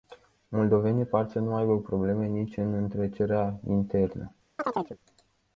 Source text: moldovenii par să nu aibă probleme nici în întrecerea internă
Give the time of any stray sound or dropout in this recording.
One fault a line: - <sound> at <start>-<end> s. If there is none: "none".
- chirp at 4.6-5.0 s